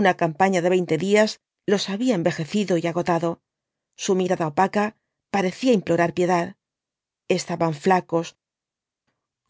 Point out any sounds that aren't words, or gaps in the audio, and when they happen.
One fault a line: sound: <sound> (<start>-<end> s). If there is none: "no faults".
no faults